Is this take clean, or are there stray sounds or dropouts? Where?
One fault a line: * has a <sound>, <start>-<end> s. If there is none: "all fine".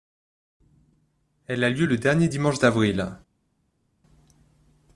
all fine